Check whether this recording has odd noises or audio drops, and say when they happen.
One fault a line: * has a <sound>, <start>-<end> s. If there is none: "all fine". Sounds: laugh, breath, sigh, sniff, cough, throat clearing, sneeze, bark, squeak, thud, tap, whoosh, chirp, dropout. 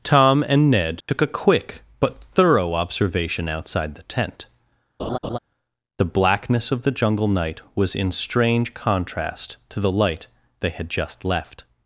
* has a dropout, 1.0-1.1 s
* has a laugh, 5.0-5.4 s